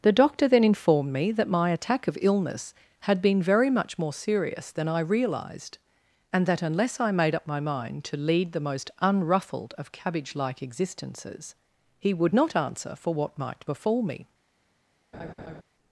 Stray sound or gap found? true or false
true